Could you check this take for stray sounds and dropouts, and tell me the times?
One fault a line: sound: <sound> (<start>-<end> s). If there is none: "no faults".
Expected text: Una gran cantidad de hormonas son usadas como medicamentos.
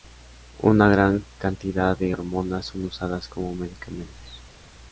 no faults